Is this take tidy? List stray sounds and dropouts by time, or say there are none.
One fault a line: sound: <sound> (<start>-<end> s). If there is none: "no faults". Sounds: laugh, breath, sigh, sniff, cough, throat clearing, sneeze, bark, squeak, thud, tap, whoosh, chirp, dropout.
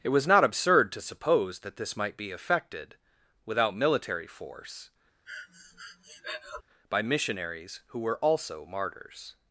sound: breath (5.3-6.6 s)